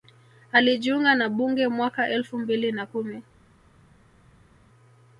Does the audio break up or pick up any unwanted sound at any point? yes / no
no